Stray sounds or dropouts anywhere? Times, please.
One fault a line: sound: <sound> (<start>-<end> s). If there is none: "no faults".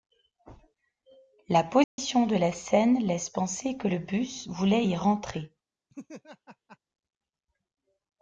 sound: dropout (1.8-2.0 s)
sound: laugh (5.9-6.8 s)